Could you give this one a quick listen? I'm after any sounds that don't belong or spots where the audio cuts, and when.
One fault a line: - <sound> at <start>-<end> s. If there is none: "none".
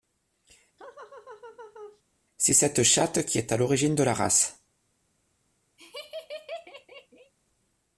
- laugh at 0.8-2.0 s
- laugh at 5.8-7.3 s